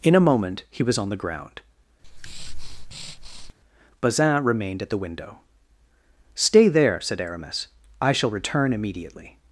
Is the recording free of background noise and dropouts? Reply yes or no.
no